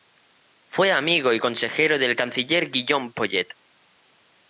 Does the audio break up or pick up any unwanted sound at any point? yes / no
no